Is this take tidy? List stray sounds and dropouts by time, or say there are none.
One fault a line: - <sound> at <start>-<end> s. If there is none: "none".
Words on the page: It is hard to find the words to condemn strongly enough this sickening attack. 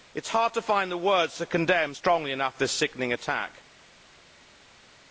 none